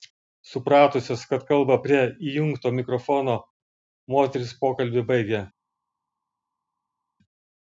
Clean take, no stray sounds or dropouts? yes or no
yes